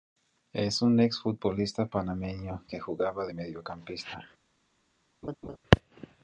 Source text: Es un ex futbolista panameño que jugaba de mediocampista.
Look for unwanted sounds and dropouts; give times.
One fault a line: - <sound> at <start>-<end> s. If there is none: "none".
- laugh at 5.2-5.6 s